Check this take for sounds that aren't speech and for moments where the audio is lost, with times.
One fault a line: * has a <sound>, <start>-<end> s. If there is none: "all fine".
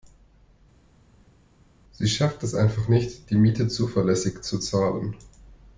all fine